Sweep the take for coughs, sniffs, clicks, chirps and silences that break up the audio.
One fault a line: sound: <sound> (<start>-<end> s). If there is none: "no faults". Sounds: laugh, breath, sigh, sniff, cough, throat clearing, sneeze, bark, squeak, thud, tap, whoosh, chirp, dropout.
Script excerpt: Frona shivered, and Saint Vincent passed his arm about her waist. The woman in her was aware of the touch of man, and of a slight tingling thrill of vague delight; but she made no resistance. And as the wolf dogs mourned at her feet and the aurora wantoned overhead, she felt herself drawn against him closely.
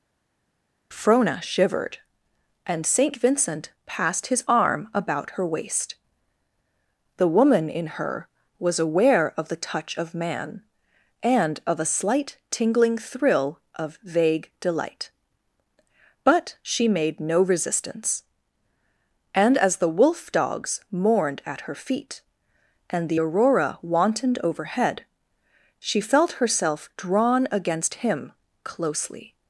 no faults